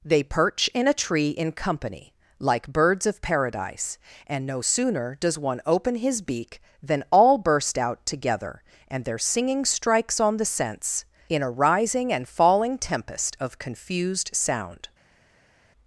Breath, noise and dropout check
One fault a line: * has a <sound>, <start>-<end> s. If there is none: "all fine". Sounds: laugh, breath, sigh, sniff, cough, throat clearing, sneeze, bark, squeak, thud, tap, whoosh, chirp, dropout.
all fine